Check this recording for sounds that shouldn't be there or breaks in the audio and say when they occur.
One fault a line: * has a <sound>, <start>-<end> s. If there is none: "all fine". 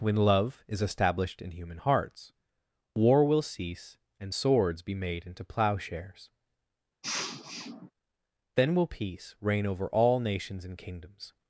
* has a sniff, 7.0-7.9 s